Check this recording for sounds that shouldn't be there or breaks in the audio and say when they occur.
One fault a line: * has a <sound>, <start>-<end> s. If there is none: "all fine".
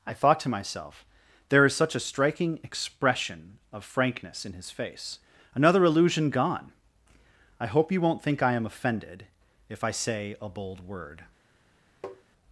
* has a tap, 12.0-12.2 s